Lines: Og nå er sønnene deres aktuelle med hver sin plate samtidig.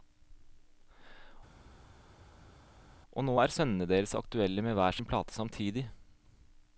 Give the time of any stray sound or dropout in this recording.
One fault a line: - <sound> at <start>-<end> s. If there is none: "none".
none